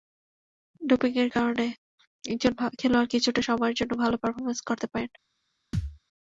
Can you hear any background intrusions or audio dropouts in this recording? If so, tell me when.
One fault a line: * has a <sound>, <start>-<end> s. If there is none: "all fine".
* has a thud, 5.7-6.0 s